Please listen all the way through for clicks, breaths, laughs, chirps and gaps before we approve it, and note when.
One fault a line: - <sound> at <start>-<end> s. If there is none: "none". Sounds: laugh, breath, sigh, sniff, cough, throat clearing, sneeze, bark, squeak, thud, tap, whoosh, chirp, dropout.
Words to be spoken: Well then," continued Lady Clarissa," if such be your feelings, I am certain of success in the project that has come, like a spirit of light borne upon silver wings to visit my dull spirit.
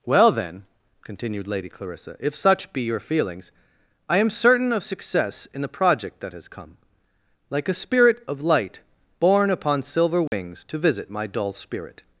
- dropout at 10.3-10.3 s